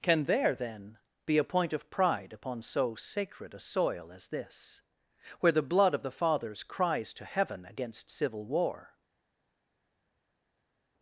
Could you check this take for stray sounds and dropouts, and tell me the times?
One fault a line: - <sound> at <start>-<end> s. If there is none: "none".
none